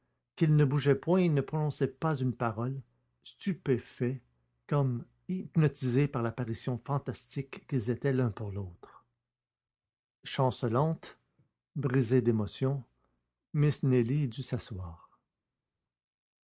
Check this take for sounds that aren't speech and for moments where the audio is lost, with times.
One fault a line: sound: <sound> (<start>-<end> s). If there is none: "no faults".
no faults